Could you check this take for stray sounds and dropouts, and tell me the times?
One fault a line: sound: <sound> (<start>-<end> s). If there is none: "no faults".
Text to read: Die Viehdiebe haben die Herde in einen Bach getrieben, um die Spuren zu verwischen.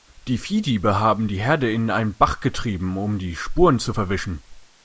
no faults